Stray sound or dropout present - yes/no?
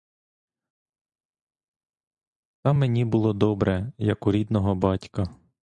no